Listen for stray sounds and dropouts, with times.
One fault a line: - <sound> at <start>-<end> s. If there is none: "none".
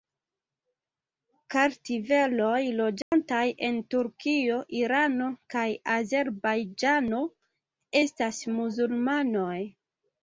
- dropout at 3.0-3.1 s